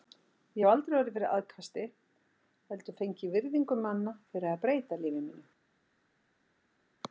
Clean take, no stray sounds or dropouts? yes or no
yes